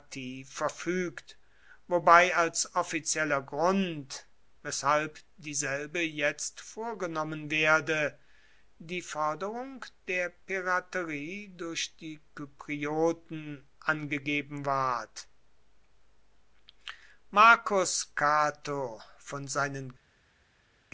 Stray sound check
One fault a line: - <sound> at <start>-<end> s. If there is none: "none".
none